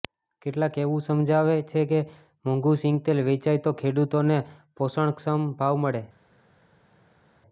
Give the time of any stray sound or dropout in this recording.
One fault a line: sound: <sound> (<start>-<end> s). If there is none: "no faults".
no faults